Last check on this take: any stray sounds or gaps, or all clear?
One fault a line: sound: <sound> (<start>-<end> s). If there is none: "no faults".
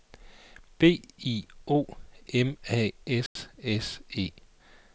sound: dropout (3.3-3.4 s)